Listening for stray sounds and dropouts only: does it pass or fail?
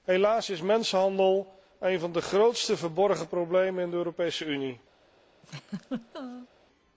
fail